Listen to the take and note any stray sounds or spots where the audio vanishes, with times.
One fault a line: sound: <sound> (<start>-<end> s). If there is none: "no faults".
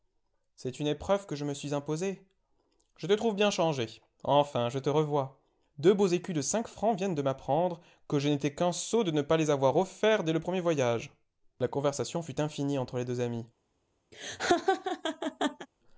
sound: laugh (14.1-15.7 s)